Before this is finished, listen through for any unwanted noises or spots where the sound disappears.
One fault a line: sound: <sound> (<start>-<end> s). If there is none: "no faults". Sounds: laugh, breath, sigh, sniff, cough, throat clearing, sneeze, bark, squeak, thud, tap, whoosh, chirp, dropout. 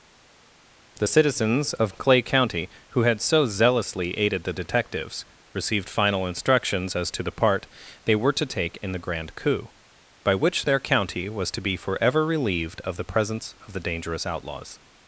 no faults